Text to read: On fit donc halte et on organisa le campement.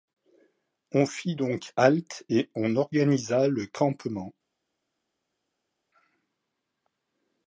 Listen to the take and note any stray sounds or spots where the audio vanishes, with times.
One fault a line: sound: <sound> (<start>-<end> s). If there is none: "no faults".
no faults